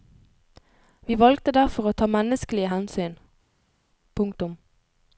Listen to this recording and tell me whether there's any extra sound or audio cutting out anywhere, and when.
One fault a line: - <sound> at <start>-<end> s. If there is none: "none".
none